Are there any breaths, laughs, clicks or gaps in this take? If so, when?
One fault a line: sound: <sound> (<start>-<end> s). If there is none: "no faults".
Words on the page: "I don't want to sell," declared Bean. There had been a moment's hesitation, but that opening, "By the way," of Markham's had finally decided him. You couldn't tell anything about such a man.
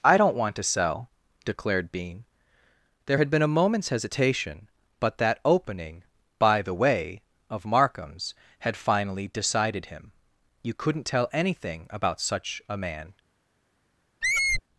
sound: squeak (14.2-14.6 s)